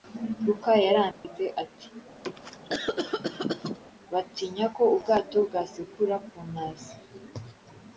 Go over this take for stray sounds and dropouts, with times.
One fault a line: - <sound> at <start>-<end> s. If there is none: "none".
- dropout at 1.1-1.2 s
- cough at 2.2-3.8 s